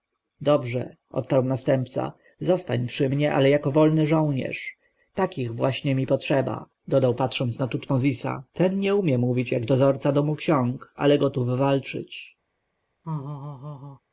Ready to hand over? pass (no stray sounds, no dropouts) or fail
fail